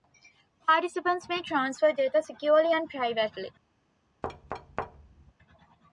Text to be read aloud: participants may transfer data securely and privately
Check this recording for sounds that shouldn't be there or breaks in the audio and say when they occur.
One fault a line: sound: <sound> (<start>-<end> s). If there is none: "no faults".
sound: thud (4.2-5.3 s)